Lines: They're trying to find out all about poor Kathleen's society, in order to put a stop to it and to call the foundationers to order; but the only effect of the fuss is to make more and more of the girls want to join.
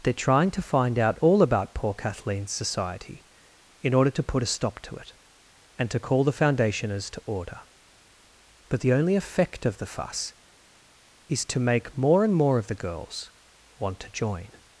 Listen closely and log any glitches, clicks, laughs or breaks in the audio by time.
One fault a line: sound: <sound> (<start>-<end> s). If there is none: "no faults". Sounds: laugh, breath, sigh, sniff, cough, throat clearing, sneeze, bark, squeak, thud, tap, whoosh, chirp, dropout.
no faults